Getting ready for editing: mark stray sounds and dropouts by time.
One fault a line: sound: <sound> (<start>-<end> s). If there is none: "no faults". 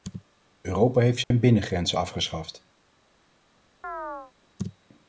sound: dropout (1.2-1.3 s)
sound: chirp (3.8-4.3 s)